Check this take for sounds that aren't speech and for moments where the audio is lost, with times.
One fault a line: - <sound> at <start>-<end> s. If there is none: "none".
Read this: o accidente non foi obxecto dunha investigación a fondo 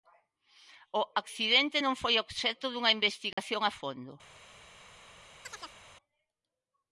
- dropout at 3.3-3.4 s
- chirp at 5.4-5.8 s